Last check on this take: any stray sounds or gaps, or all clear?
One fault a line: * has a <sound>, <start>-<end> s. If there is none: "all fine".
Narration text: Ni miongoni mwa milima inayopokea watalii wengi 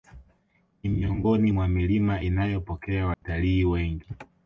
* has a dropout, 3.1-3.2 s